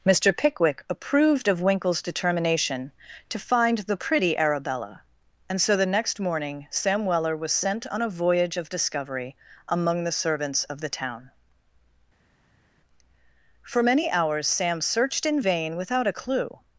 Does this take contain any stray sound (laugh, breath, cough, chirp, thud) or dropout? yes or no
no